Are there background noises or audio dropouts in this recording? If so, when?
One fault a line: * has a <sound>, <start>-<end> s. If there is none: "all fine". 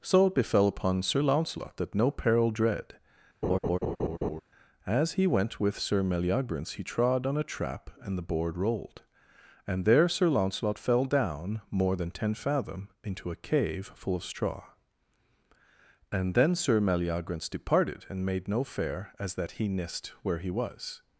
* has a laugh, 3.4-4.4 s